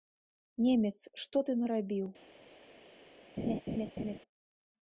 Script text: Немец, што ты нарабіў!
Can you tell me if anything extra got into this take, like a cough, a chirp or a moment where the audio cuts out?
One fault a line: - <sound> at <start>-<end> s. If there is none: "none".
- laugh at 3.4-4.2 s